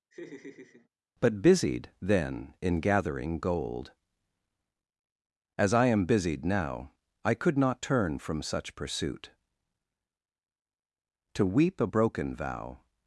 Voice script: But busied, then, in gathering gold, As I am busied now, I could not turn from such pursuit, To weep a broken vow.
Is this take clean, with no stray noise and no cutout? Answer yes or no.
no